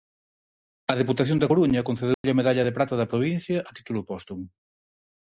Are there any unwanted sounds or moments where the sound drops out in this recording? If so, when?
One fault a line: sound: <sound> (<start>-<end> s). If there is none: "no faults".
sound: dropout (2.1-2.2 s)